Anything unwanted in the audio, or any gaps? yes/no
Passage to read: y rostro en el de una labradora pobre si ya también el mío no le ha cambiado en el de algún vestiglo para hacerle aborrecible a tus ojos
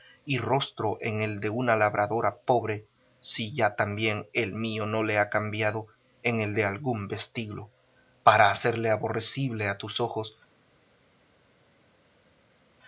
no